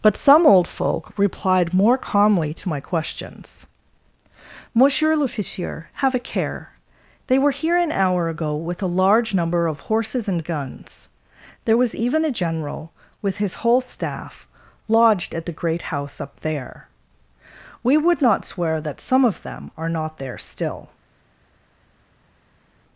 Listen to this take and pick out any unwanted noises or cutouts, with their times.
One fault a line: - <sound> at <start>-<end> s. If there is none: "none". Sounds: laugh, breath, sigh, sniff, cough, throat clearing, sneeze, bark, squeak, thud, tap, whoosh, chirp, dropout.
none